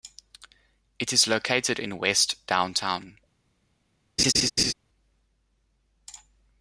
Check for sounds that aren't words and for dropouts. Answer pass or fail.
fail